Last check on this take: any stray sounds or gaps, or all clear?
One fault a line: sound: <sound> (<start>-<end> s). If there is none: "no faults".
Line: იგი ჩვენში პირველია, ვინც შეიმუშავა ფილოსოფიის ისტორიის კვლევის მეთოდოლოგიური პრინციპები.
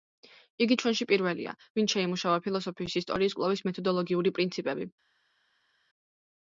no faults